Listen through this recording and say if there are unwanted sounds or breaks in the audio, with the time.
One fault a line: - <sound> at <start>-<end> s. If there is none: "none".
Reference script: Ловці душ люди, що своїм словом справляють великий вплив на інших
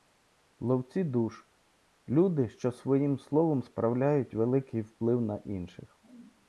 none